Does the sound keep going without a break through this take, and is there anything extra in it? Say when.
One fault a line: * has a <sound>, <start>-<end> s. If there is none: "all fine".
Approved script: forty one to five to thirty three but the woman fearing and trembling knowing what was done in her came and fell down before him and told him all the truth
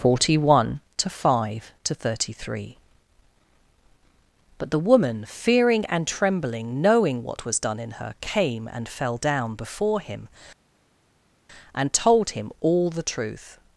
all fine